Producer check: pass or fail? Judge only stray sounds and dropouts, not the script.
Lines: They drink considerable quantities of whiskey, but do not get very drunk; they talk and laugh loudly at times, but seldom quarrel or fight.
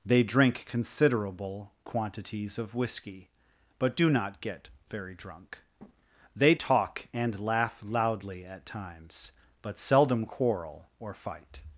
pass